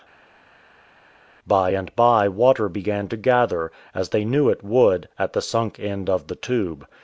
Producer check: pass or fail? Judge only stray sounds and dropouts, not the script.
pass